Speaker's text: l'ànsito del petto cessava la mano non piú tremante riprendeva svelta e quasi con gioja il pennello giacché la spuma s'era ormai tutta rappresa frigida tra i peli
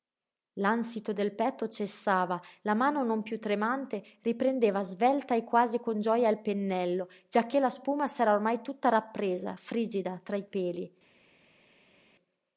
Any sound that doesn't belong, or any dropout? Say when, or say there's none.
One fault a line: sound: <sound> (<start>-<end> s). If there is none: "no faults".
no faults